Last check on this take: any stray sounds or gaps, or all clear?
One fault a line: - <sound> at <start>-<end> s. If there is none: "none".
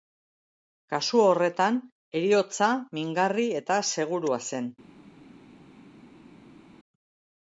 none